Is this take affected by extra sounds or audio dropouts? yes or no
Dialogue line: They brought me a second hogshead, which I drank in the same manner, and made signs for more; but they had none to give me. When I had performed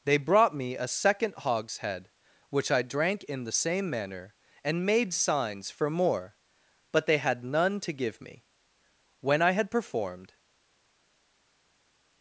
no